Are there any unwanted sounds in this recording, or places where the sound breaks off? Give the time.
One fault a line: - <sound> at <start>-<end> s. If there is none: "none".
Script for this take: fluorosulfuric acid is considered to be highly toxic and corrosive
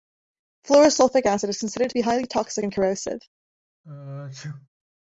- sneeze at 3.8-4.7 s